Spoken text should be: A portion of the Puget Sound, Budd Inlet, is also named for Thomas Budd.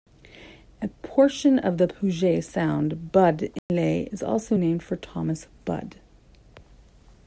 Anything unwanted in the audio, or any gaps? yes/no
yes